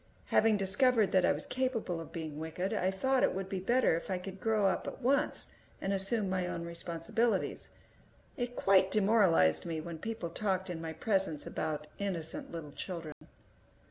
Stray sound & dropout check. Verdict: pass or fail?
fail